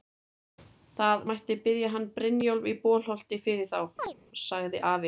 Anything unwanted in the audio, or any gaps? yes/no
yes